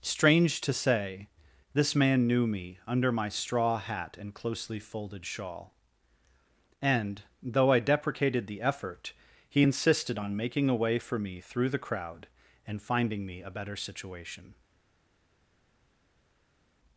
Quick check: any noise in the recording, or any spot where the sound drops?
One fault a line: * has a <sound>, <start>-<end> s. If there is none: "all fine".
all fine